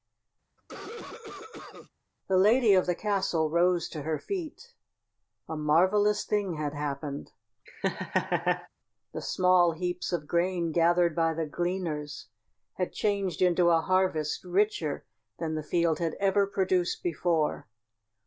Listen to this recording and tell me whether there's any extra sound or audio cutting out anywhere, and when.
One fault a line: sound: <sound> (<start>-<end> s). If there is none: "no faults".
sound: cough (0.6-1.9 s)
sound: laugh (7.7-8.7 s)